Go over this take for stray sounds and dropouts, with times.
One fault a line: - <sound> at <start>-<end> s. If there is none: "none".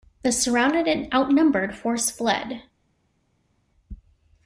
none